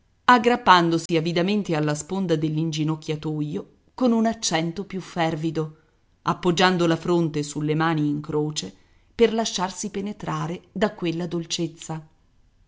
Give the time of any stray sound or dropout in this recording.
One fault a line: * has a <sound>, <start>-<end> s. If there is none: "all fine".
* has a dropout, 1.1-1.1 s